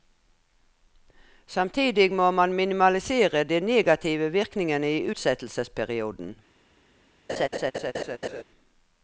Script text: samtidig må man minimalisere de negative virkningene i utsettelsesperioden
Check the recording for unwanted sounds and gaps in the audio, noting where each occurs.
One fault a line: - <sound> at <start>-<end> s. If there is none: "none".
- laugh at 7.3-8.4 s